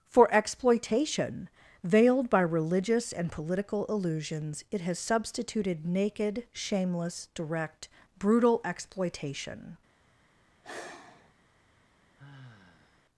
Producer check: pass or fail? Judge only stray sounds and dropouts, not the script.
fail